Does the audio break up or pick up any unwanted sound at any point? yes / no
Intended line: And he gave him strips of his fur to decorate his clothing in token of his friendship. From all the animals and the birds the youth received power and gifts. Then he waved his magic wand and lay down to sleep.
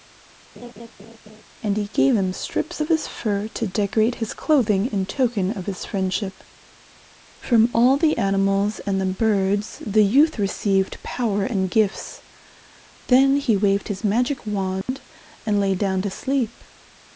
yes